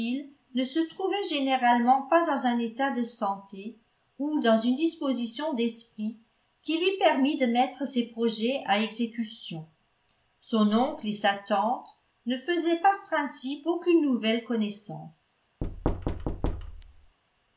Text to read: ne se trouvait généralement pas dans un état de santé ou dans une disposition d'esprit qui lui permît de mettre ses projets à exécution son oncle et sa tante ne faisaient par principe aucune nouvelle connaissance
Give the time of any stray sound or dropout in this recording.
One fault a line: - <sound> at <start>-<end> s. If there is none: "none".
- thud at 15.6-17.2 s